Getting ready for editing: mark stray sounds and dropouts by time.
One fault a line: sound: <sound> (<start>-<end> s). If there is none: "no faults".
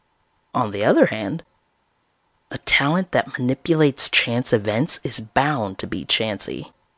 no faults